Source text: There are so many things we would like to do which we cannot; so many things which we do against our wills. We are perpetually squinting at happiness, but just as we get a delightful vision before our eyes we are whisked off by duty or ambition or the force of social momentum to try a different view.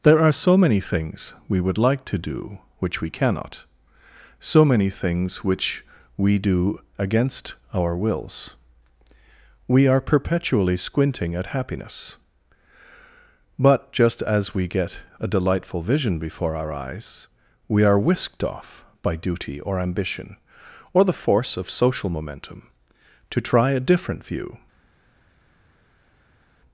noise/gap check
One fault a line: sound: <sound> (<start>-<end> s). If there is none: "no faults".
no faults